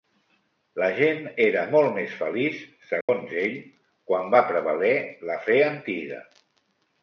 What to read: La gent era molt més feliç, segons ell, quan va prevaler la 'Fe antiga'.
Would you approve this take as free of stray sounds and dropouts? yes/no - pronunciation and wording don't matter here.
no